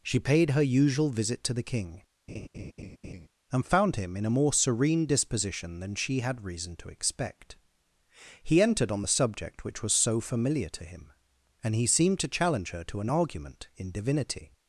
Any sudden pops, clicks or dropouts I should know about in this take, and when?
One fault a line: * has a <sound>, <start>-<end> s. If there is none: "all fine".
* has a laugh, 2.3-3.3 s